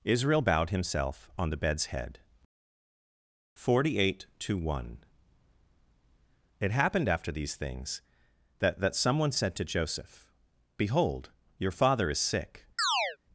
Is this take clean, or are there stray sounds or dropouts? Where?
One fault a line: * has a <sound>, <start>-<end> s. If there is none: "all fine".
* has a chirp, 12.8-13.2 s